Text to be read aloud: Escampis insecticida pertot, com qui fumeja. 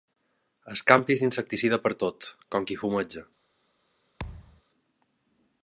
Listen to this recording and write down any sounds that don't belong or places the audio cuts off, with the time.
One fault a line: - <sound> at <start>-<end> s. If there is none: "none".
- thud at 4.2-4.6 s